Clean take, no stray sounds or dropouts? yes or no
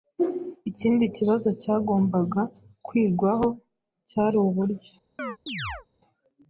no